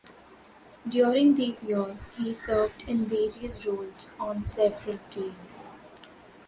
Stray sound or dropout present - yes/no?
no